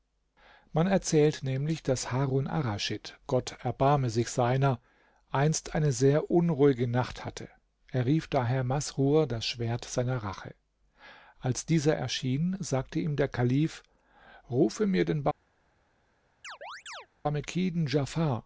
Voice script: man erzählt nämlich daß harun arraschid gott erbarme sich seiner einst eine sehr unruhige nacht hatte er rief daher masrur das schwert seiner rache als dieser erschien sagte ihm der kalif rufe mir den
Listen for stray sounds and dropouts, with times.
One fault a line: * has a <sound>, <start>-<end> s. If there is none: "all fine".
* has a chirp, 16.4-17.1 s